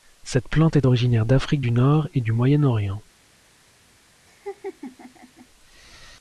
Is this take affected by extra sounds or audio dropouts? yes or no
yes